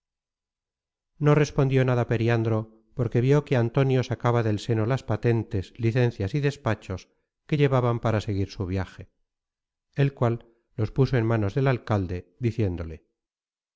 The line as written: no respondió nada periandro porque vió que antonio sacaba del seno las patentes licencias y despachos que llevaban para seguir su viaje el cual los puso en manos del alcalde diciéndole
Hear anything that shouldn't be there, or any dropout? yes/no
no